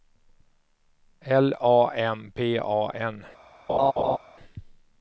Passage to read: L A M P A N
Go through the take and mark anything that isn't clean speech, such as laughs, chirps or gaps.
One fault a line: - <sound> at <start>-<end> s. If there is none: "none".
- laugh at 3.7-4.2 s